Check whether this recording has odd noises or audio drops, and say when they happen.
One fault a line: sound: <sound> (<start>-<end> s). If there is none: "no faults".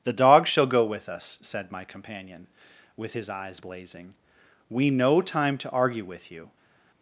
no faults